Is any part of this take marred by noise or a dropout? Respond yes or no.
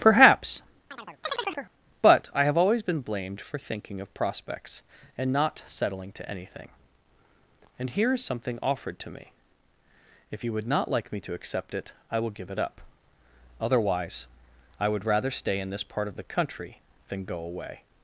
yes